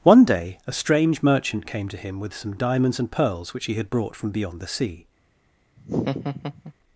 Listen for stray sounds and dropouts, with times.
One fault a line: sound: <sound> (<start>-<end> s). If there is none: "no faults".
sound: laugh (5.8-6.7 s)